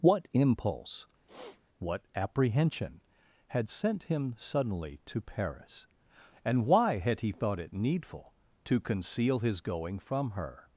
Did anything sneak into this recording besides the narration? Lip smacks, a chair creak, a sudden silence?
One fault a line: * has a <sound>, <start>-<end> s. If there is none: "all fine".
* has a sniff, 1.3-1.6 s